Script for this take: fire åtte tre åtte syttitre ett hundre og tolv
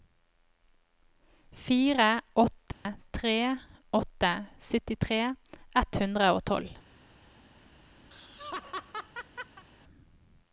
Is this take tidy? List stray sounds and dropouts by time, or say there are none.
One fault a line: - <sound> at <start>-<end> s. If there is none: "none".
- dropout at 2.7-2.9 s
- laugh at 8.1-9.6 s